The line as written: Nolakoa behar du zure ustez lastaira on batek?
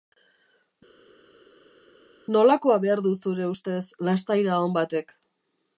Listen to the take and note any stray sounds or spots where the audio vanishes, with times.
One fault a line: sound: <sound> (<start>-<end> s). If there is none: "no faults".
no faults